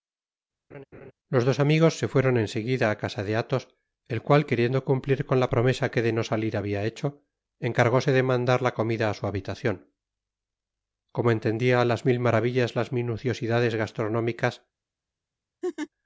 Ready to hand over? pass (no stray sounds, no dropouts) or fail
fail